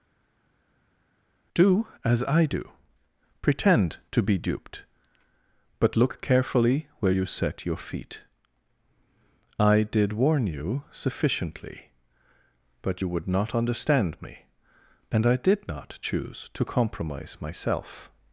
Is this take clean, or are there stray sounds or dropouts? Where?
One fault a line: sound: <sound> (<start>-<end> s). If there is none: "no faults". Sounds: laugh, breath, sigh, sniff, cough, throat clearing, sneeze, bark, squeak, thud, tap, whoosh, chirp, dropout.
no faults